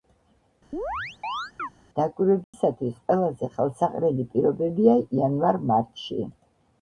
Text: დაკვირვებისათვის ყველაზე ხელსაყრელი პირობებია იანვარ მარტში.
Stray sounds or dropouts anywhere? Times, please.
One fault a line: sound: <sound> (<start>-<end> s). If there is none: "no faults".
sound: chirp (0.7-1.7 s)
sound: dropout (2.4-2.5 s)